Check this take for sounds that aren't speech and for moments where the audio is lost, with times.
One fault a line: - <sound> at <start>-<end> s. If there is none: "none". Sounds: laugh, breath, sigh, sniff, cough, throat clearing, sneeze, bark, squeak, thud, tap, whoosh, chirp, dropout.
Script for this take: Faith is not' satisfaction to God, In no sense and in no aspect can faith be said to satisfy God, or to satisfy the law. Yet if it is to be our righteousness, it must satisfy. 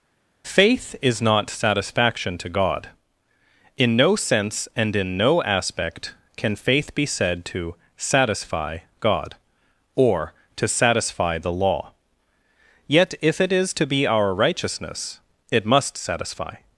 none